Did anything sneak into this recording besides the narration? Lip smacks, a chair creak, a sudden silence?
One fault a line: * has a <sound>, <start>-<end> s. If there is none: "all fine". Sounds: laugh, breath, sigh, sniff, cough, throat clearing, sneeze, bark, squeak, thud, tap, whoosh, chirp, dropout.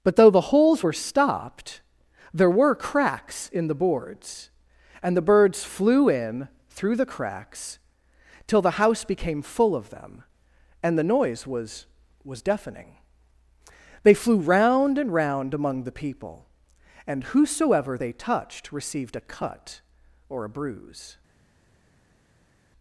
all fine